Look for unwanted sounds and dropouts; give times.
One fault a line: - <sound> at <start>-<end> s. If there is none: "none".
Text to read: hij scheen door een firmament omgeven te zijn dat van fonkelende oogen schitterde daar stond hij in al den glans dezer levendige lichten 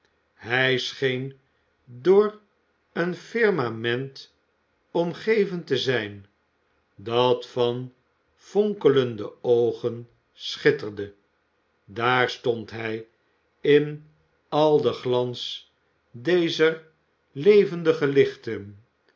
none